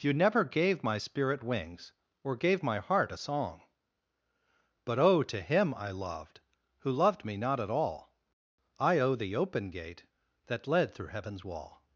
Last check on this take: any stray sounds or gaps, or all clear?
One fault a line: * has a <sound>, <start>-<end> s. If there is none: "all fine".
all fine